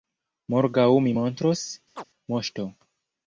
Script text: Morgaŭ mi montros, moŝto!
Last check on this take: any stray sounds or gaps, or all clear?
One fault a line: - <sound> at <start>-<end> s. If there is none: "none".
- chirp at 2.0-2.0 s